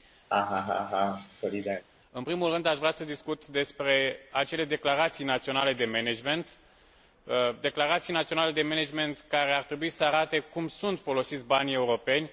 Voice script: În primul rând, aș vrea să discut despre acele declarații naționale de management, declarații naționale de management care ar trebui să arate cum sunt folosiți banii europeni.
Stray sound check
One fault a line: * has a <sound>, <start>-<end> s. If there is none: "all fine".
* has a laugh, 0.3-1.8 s